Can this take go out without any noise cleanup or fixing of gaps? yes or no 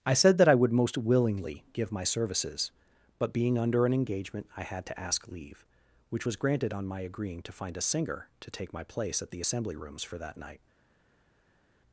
yes